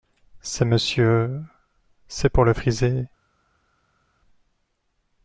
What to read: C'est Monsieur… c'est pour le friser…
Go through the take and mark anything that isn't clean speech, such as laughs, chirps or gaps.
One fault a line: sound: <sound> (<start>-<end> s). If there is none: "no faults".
no faults